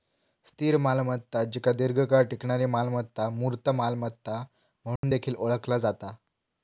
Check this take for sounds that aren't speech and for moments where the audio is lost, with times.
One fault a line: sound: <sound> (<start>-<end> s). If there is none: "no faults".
sound: dropout (5.0-5.0 s)